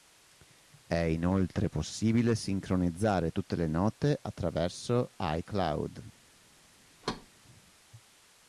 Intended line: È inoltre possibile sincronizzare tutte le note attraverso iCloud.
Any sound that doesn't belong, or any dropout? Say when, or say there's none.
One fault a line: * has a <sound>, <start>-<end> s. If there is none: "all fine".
* has a thud, 7.0-7.3 s